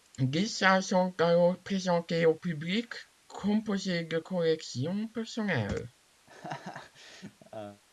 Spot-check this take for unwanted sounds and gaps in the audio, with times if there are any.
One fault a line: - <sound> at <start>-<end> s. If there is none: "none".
- laugh at 6.3-7.8 s